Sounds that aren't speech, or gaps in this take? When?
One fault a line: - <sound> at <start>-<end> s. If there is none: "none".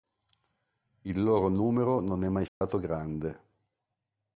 - dropout at 2.5-2.6 s